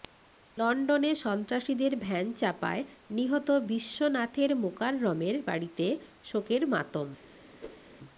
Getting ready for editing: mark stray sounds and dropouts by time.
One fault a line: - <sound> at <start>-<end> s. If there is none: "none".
- whoosh at 7.6-7.9 s